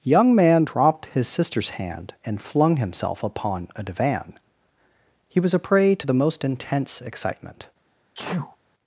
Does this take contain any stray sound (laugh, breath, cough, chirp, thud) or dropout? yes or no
yes